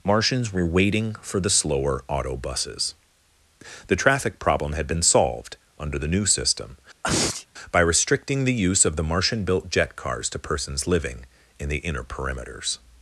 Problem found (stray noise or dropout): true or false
true